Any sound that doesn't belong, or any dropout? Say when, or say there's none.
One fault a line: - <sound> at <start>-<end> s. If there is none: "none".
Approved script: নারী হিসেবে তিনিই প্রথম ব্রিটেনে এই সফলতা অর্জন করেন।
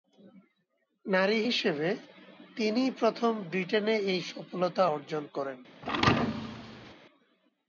- thud at 5.8-6.9 s